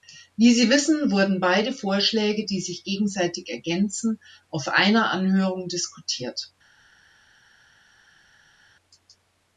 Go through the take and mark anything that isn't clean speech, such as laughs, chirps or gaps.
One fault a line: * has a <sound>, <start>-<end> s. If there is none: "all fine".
all fine